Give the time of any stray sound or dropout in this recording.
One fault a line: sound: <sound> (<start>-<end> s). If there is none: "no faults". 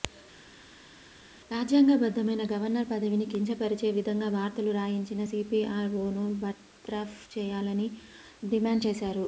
no faults